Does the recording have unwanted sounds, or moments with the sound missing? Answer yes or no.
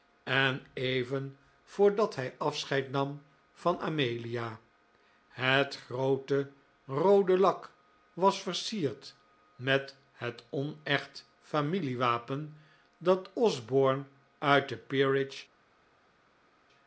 no